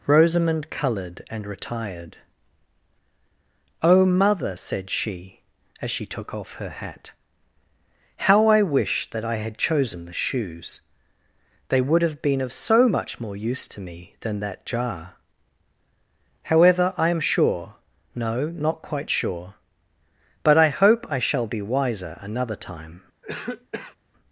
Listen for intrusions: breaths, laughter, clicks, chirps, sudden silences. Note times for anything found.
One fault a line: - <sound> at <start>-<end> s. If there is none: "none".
- cough at 23.2-24.0 s